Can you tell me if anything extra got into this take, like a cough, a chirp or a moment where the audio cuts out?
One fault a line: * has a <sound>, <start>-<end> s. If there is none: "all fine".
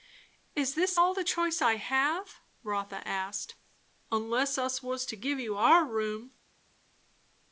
all fine